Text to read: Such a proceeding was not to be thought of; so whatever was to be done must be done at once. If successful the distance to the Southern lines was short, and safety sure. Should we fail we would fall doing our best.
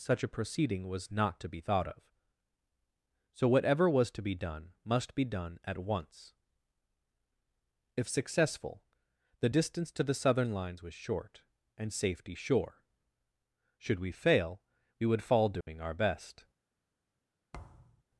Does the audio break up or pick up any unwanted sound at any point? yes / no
yes